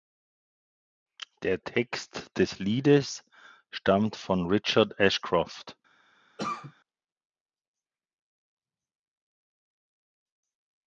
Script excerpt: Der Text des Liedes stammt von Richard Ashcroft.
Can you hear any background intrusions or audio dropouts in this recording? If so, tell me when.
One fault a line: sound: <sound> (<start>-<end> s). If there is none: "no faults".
sound: cough (6.4-6.7 s)